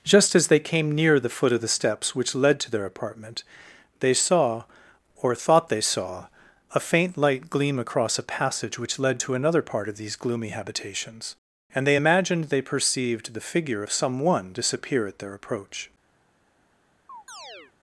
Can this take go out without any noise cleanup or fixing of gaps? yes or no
no